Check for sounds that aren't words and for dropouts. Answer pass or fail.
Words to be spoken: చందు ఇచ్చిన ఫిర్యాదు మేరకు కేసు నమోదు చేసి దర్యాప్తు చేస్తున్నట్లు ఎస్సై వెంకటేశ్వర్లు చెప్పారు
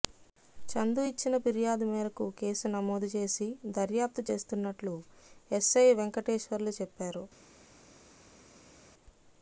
pass